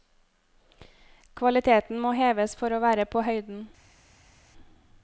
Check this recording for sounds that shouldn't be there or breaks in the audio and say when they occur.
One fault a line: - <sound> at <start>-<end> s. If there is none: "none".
none